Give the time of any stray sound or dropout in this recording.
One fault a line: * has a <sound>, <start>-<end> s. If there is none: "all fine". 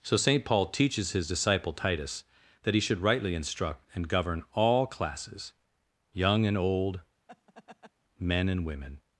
* has a laugh, 7.3-7.9 s